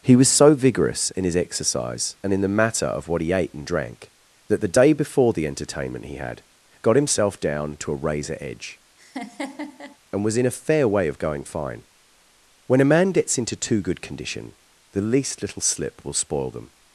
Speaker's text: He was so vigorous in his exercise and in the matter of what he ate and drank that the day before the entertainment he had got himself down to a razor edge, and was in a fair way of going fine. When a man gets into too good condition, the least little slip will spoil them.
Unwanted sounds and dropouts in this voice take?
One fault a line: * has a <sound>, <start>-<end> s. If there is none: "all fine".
* has a laugh, 9.0-10.0 s